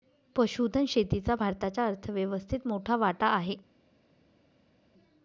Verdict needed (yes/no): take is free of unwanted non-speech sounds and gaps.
yes